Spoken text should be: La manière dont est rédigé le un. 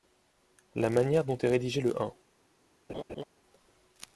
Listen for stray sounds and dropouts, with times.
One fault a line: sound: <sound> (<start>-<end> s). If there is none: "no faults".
sound: laugh (2.9-3.2 s)